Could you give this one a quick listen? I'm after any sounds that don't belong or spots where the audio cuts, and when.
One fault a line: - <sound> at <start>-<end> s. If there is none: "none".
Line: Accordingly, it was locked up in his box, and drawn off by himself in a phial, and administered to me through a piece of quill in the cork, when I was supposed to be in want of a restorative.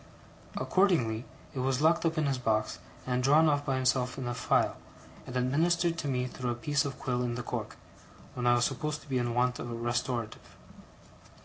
none